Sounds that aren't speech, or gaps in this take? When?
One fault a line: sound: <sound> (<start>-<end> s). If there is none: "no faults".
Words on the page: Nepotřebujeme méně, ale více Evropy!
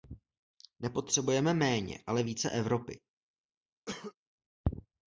sound: cough (3.9-4.1 s)